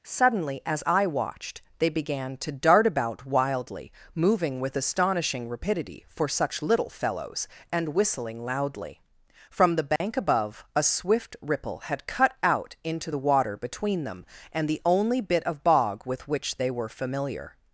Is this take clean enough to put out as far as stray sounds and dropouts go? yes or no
no